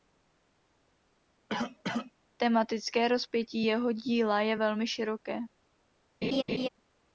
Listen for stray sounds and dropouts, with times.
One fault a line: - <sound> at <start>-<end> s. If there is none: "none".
- cough at 1.5-2.1 s
- laugh at 6.2-6.7 s